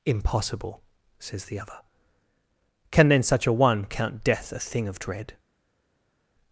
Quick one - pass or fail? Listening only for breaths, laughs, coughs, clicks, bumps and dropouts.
pass